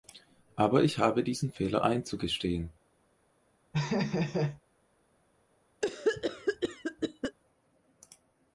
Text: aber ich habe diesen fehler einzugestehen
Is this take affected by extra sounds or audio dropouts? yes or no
yes